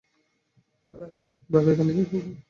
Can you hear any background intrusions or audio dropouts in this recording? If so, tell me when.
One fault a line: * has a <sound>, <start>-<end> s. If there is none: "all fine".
* has a laugh, 0.9-1.1 s